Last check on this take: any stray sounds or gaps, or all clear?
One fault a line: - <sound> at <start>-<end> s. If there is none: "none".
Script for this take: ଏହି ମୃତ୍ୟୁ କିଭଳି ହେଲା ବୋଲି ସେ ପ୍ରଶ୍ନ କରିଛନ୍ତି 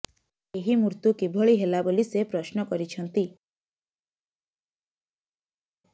none